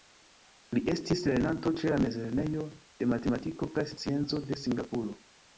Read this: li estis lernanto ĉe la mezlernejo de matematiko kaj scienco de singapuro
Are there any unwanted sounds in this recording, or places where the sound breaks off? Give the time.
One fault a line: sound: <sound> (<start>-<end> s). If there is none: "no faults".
no faults